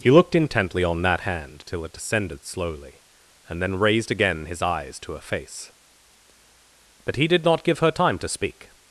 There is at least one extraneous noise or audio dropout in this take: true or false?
false